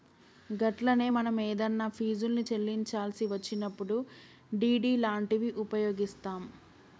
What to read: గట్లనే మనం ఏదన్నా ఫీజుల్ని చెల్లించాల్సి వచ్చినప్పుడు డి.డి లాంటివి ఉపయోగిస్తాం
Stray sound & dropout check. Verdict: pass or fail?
pass